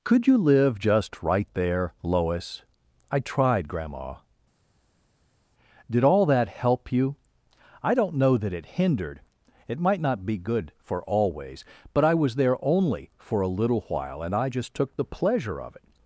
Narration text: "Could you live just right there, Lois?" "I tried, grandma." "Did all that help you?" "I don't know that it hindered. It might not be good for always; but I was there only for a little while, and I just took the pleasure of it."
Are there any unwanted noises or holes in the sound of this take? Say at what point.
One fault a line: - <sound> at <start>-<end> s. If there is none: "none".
none